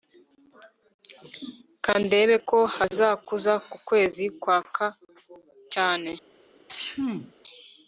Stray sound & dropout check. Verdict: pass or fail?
fail